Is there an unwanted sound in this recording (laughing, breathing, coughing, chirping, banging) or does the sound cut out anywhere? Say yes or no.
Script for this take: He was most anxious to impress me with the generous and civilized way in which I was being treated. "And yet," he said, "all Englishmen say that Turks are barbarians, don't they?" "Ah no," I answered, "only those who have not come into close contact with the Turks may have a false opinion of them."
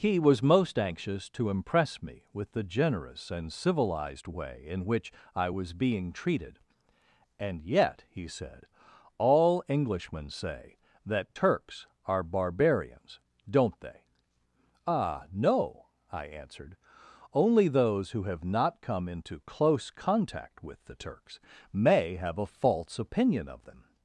no